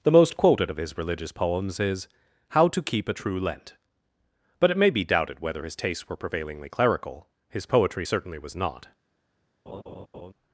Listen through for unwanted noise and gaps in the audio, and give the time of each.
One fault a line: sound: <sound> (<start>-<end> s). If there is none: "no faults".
sound: laugh (9.7-10.3 s)